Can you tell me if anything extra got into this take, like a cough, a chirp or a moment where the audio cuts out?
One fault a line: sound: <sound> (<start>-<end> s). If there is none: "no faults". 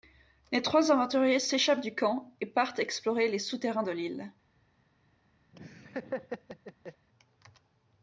sound: laugh (5.5-7.1 s)